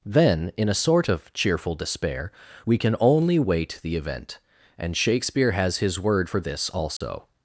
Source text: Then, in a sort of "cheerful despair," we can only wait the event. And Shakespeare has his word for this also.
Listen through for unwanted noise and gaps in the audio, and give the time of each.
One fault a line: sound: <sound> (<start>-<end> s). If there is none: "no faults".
sound: dropout (7.0-7.0 s)